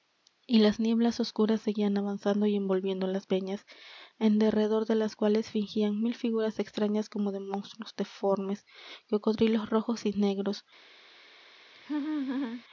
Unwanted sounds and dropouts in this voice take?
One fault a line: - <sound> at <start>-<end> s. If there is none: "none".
- laugh at 11.7-12.6 s